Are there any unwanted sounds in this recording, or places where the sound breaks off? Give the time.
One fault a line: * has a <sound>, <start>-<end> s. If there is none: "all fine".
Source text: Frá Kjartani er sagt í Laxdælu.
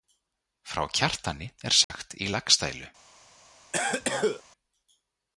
* has a dropout, 1.8-1.9 s
* has a cough, 3.7-4.4 s